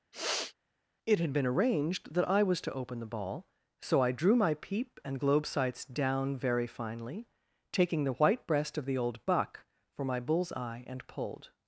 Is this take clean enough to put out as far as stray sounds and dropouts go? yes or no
no